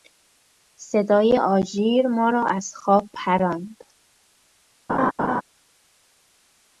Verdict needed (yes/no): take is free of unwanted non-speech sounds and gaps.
no